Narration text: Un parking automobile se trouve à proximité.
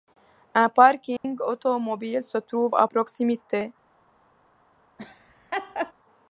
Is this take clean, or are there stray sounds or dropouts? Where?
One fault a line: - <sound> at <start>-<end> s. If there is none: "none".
- dropout at 1.2-1.2 s
- laugh at 5.0-5.9 s